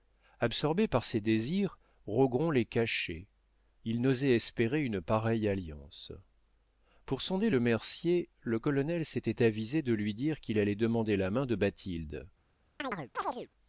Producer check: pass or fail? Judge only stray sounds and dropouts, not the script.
fail